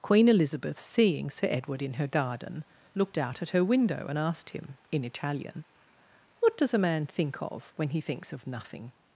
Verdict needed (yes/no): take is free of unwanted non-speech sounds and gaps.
yes